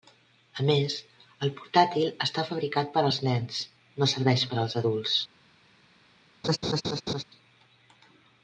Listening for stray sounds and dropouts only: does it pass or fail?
fail